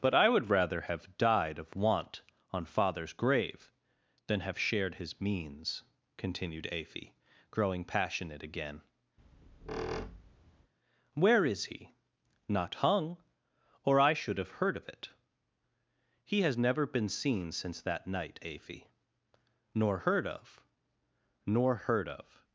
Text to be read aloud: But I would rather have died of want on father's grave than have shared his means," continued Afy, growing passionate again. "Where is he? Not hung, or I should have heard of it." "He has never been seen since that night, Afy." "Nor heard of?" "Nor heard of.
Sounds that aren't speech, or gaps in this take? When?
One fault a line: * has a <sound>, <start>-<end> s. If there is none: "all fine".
* has a squeak, 9.2-10.7 s